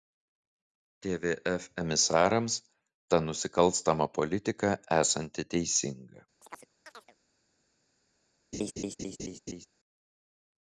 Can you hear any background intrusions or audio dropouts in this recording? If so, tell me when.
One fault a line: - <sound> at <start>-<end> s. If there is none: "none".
- chirp at 6.4-7.2 s
- laugh at 8.5-9.7 s